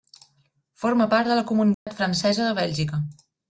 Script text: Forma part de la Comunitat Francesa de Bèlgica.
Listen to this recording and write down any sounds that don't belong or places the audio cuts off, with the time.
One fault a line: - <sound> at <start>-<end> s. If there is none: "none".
- dropout at 1.7-1.9 s